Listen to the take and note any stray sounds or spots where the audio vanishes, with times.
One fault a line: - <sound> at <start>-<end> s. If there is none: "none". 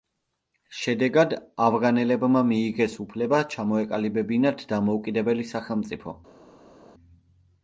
none